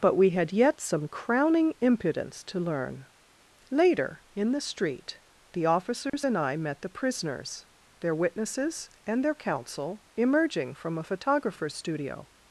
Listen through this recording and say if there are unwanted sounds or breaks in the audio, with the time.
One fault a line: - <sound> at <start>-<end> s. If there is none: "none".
- dropout at 6.1-6.1 s